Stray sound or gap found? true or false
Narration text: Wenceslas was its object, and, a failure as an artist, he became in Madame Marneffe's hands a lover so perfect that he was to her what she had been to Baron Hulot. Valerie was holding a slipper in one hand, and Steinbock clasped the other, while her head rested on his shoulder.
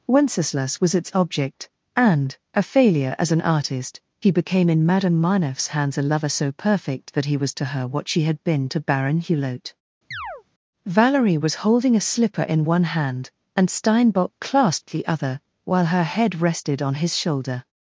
true